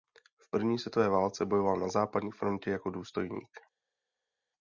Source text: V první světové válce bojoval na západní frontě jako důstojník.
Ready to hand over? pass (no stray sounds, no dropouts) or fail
pass